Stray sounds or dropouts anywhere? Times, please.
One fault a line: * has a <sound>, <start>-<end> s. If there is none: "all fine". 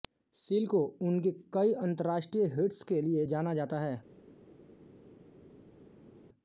all fine